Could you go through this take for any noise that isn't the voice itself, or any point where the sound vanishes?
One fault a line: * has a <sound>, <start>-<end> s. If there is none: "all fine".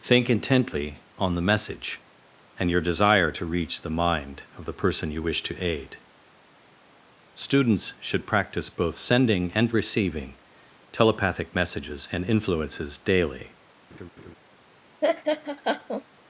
* has a laugh, 13.9-14.4 s
* has a laugh, 15.0-16.0 s